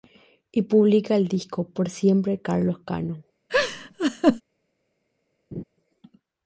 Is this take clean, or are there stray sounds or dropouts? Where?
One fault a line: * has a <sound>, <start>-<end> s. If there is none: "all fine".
* has a laugh, 3.5-4.4 s
* has a laugh, 5.5-5.6 s